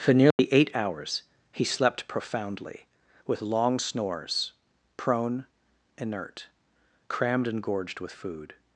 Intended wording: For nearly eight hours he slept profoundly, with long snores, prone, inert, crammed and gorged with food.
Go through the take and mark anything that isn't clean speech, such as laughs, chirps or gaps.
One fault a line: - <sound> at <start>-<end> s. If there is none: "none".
- dropout at 0.3-0.4 s